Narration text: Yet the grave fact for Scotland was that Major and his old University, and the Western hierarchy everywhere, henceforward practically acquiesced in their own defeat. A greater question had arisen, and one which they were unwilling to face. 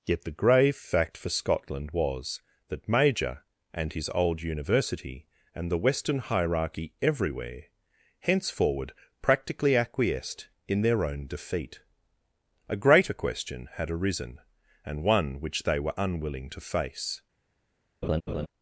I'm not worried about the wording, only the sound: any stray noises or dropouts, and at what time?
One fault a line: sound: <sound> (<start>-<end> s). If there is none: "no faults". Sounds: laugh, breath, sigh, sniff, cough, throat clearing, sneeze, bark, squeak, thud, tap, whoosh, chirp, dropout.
sound: laugh (18.0-18.5 s)